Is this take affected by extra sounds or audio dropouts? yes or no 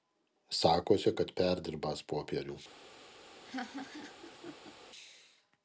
yes